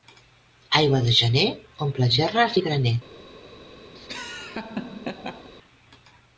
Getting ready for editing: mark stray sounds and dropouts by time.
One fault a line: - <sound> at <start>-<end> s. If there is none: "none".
- laugh at 4.0-5.5 s